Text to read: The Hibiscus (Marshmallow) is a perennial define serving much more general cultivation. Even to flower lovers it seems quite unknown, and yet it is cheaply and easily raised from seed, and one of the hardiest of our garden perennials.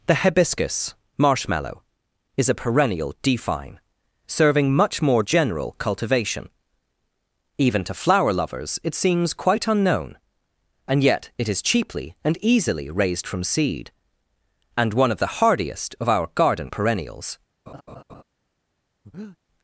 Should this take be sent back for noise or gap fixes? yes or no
yes